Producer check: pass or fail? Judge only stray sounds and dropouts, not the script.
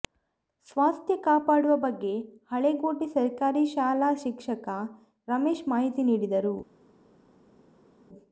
pass